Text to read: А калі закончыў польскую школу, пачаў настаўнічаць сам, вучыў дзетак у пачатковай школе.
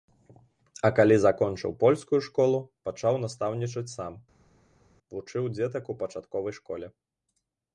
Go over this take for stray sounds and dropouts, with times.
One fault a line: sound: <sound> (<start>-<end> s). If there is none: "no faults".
no faults